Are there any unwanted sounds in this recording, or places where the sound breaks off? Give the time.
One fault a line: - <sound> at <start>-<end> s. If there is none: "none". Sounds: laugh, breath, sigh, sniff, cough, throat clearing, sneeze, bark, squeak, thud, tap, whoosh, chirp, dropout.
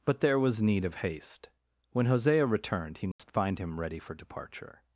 - dropout at 3.1-3.2 s